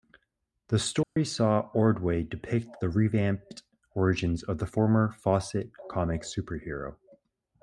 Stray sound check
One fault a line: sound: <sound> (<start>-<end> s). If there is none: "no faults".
sound: dropout (1.0-1.2 s)